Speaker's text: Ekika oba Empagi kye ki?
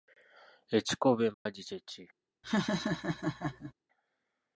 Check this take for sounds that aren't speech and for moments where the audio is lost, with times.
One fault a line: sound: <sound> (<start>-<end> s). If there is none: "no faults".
sound: dropout (1.3-1.5 s)
sound: laugh (2.4-3.7 s)